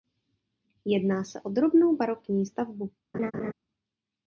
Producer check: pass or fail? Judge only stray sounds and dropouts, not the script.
fail